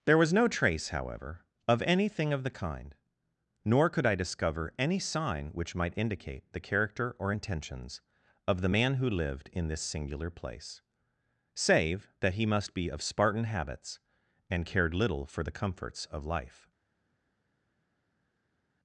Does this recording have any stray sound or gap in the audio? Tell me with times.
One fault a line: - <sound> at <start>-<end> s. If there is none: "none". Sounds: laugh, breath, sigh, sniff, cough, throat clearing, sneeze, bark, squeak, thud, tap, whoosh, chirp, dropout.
none